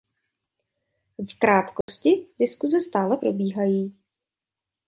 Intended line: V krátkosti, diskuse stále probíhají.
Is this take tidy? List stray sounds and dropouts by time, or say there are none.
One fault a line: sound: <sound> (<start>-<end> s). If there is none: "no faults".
sound: dropout (1.8-1.9 s)